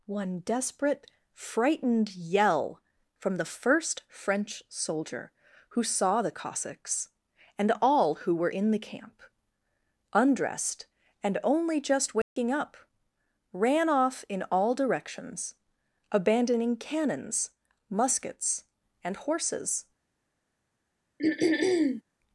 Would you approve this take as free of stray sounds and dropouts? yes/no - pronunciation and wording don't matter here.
no